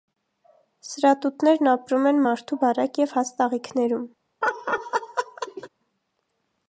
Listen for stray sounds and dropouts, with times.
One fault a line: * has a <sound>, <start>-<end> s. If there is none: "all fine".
* has a laugh, 4.4-5.7 s